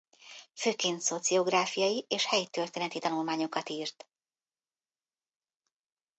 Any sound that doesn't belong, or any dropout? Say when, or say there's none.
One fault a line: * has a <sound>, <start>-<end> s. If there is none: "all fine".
all fine